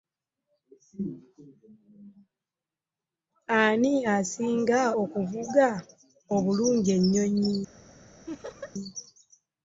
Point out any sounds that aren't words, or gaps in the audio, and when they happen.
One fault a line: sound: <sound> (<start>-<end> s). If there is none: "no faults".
sound: laugh (8.3-8.7 s)